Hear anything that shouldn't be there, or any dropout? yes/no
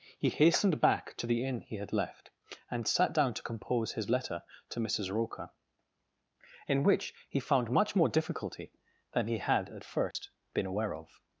yes